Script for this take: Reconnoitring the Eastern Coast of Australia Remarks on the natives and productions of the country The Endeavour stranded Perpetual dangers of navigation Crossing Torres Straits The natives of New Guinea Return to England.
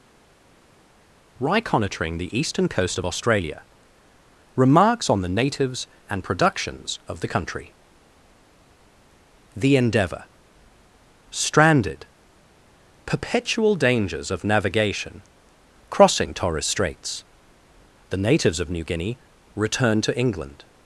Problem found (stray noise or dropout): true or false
false